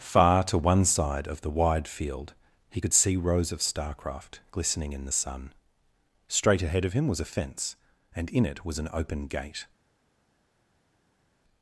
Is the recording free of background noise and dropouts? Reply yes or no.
yes